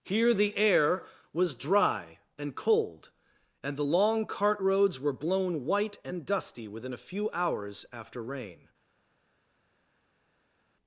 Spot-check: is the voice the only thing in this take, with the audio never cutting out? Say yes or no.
yes